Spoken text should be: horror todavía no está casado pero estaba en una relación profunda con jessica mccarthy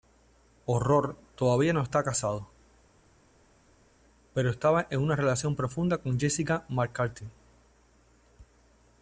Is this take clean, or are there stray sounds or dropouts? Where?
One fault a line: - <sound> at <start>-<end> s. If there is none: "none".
none